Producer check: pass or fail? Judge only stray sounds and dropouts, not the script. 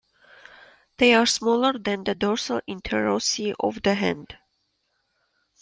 pass